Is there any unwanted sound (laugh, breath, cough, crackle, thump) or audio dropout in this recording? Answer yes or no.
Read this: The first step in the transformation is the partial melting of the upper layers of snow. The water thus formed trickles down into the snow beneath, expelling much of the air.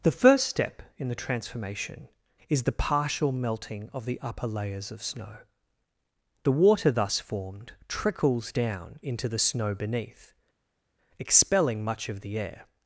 no